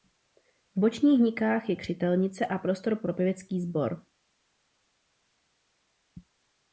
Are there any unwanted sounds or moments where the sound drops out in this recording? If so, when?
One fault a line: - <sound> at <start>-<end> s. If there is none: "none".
none